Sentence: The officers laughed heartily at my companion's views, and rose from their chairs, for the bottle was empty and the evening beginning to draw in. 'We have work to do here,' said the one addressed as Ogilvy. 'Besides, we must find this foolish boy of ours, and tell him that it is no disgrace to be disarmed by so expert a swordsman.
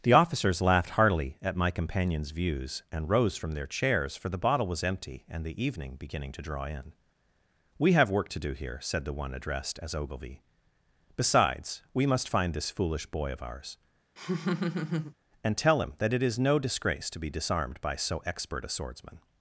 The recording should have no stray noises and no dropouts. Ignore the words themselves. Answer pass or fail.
fail